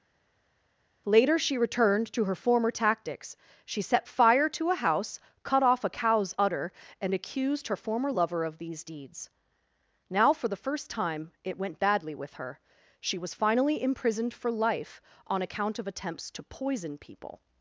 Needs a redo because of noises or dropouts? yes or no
no